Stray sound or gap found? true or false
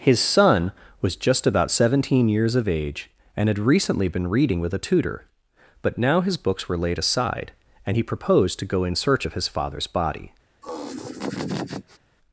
true